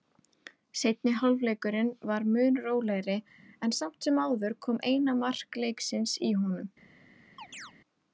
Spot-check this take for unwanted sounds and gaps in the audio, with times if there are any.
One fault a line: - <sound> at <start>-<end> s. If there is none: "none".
- chirp at 7.4-7.7 s